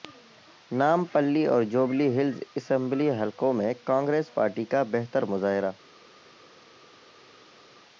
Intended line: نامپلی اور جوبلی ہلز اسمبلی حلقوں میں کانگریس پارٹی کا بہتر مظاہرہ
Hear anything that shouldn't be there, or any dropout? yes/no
no